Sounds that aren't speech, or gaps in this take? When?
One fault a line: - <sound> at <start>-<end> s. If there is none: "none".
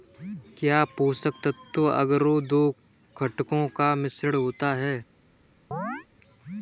- chirp at 5.7-6.1 s